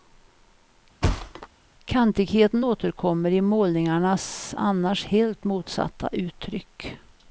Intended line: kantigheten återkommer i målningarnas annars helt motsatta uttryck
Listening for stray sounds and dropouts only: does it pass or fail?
fail